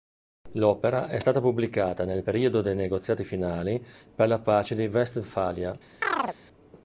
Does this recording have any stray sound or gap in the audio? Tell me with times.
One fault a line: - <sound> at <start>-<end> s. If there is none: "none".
- chirp at 6.0-6.4 s